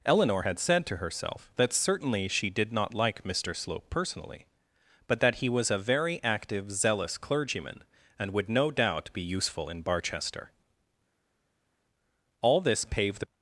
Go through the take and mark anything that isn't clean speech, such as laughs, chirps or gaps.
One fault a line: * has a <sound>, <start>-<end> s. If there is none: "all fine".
all fine